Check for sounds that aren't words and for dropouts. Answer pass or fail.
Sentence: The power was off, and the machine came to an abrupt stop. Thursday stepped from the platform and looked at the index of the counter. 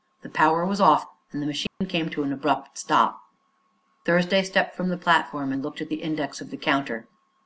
fail